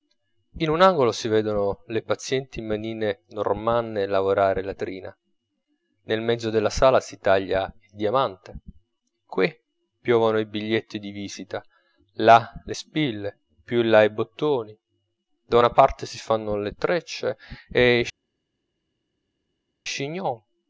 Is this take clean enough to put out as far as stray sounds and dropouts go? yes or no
yes